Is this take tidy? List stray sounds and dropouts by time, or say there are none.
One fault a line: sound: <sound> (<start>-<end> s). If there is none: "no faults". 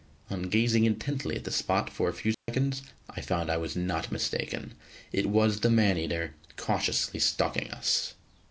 sound: dropout (2.3-2.5 s)